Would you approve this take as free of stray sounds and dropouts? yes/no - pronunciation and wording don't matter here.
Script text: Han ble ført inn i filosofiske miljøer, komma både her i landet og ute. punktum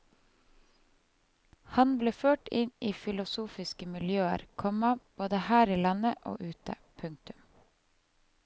yes